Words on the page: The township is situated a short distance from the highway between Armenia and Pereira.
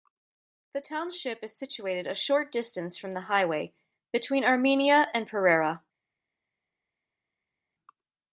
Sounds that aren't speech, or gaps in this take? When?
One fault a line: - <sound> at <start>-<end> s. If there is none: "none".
none